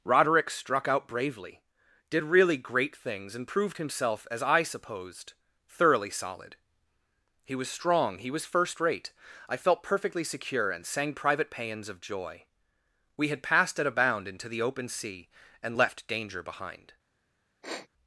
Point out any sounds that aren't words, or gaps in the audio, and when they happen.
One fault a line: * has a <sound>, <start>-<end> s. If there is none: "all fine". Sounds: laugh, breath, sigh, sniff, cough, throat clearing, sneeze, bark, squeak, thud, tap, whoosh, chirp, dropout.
* has a sniff, 17.6-17.9 s